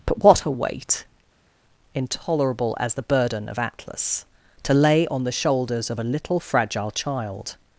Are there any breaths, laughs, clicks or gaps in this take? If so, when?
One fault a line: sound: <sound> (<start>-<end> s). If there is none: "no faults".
no faults